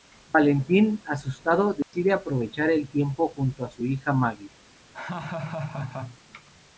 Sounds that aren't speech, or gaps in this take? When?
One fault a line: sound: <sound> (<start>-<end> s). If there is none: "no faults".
sound: dropout (1.8-1.9 s)
sound: laugh (4.9-6.2 s)